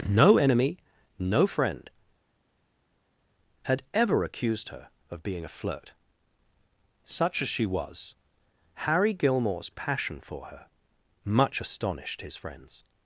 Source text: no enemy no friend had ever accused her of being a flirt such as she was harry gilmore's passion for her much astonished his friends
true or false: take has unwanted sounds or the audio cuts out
false